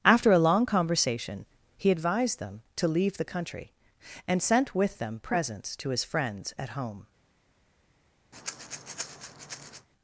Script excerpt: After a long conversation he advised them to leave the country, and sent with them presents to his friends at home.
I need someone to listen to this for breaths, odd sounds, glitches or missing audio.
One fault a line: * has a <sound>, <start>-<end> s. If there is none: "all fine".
* has a breath, 8.3-9.9 s